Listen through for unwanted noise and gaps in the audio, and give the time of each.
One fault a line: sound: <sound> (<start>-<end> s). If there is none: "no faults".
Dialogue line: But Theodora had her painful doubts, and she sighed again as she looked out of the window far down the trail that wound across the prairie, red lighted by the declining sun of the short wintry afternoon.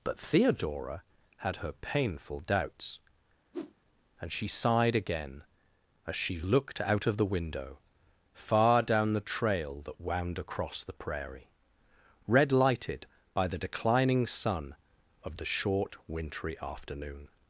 sound: whoosh (3.5-3.7 s)